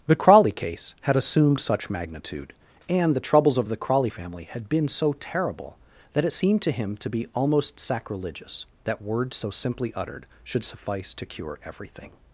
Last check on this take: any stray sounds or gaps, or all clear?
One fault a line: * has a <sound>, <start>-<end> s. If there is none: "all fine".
all fine